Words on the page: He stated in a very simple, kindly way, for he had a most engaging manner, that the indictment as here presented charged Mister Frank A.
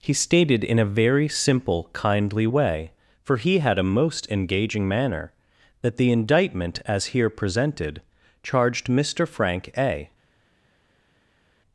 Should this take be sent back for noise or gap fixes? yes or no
no